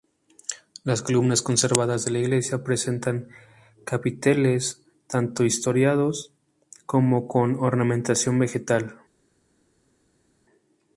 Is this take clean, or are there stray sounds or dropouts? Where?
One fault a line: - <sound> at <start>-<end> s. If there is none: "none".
none